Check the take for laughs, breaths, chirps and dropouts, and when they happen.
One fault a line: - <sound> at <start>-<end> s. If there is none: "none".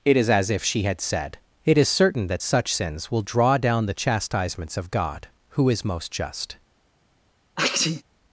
- sneeze at 7.6-8.0 s